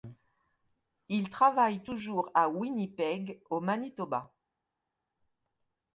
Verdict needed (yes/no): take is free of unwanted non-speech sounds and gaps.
yes